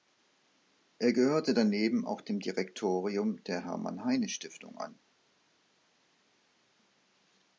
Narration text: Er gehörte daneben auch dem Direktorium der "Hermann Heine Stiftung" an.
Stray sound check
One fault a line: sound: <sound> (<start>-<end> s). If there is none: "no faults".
no faults